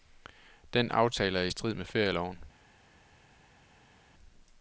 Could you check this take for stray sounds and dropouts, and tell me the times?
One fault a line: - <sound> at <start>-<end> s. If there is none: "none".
none